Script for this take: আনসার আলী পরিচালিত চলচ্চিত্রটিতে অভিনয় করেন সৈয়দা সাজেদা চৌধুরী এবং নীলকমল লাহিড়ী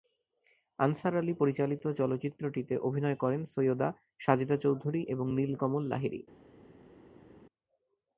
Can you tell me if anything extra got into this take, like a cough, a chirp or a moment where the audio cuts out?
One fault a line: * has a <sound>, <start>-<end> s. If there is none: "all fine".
all fine